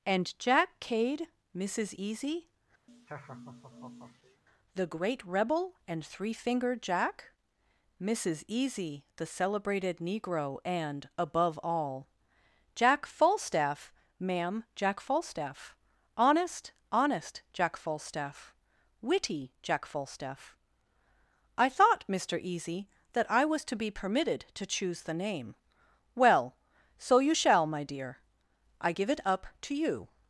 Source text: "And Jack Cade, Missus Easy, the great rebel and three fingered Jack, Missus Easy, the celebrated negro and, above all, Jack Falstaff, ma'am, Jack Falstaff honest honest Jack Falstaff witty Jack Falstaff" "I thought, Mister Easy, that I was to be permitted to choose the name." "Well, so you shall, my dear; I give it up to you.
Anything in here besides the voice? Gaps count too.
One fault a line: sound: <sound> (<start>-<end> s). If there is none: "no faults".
sound: laugh (2.9-4.4 s)